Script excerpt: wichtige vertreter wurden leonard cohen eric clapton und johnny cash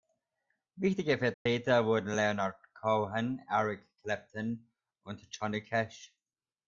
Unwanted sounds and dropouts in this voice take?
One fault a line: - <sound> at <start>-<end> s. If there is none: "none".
- dropout at 1.3-1.5 s